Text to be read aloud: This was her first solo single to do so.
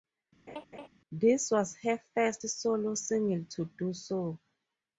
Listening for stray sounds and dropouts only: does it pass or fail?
fail